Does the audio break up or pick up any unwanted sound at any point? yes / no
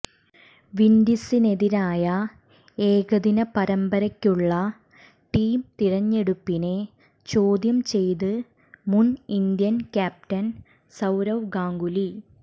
no